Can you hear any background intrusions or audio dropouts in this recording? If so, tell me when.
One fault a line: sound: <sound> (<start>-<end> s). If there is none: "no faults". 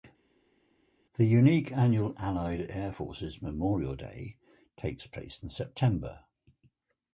no faults